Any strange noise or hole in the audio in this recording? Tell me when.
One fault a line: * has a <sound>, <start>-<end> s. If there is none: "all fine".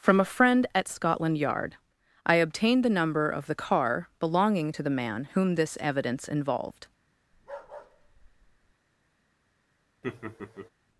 * has a bark, 7.3-8.7 s
* has a laugh, 10.0-10.7 s